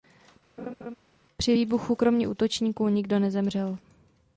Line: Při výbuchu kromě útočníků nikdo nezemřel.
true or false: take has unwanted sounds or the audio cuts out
true